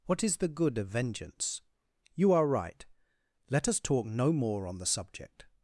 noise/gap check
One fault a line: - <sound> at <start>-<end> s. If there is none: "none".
none